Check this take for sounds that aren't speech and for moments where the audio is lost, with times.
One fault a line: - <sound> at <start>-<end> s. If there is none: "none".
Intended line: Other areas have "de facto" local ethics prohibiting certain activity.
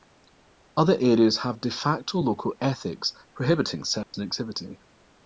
- dropout at 4.0-4.1 s